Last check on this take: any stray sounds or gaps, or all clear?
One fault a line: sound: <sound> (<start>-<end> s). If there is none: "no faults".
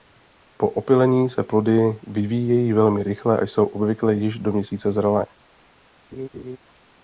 sound: laugh (6.1-6.6 s)